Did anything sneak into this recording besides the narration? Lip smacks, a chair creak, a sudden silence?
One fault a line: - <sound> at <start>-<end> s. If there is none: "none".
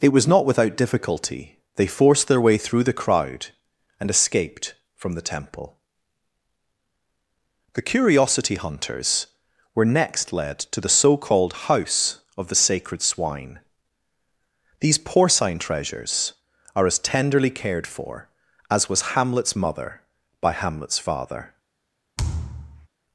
- thud at 22.2-22.9 s